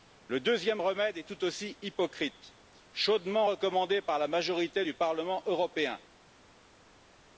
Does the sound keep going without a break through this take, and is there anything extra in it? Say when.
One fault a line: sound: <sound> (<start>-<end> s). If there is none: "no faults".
no faults